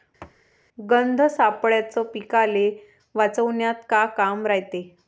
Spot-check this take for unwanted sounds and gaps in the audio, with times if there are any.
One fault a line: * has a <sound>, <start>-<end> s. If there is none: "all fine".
* has a thud, 0.2-0.4 s